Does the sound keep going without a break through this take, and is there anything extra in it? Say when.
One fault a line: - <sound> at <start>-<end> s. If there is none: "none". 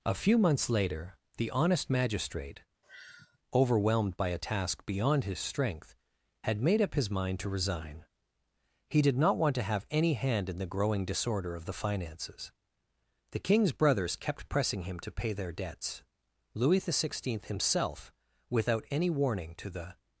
- sigh at 2.8-3.4 s